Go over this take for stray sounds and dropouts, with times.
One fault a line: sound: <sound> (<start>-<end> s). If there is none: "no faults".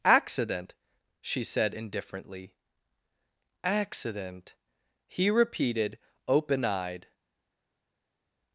no faults